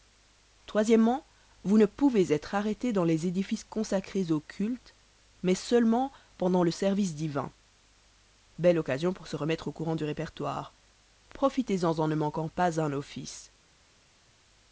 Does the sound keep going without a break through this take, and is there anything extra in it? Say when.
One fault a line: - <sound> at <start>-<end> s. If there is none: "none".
none